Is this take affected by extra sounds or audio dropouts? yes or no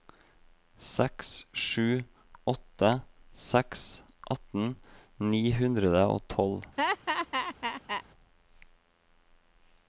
yes